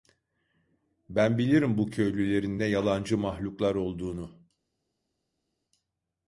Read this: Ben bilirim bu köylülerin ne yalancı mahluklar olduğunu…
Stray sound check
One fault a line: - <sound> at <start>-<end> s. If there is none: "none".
none